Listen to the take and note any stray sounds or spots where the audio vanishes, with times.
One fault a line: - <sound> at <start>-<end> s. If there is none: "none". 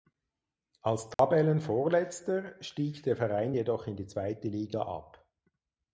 - dropout at 1.1-1.2 s